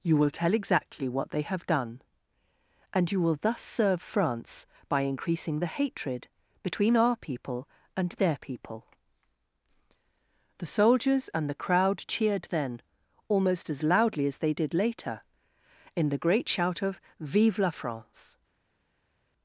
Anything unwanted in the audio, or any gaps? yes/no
no